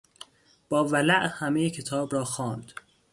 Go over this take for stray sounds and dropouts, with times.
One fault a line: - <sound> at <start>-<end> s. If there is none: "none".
none